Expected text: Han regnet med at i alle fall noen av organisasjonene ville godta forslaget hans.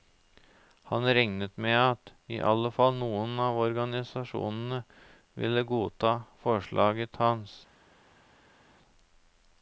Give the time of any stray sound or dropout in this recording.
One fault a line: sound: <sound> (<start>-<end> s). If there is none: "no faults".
no faults